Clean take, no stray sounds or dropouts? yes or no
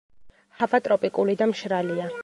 yes